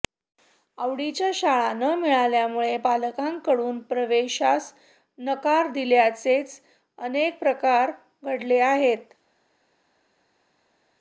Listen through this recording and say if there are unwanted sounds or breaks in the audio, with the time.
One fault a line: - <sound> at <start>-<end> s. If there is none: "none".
none